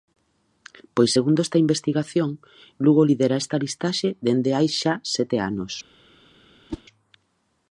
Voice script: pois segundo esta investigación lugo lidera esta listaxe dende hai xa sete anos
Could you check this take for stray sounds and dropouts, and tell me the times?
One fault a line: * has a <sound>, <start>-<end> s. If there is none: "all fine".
* has a whoosh, 6.7-6.8 s